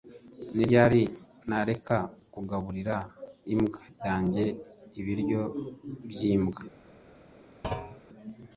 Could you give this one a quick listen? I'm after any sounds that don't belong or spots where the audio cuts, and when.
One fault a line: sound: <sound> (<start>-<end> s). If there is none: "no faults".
sound: thud (7.6-8.0 s)